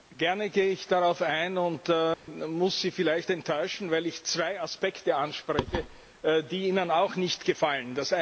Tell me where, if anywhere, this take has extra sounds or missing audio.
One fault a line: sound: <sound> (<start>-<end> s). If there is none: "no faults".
sound: dropout (2.1-2.3 s)